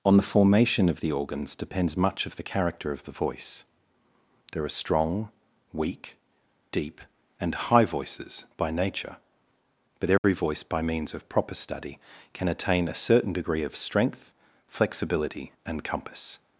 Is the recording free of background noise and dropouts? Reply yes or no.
no